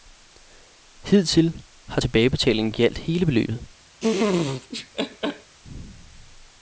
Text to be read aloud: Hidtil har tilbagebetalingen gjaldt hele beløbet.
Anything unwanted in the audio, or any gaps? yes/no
yes